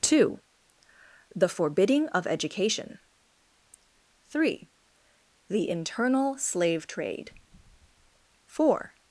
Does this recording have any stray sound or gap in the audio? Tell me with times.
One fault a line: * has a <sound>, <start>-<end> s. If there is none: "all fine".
all fine